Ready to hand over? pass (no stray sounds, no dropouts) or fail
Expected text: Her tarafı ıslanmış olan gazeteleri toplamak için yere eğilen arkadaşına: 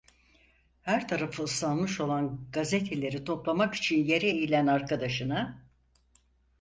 pass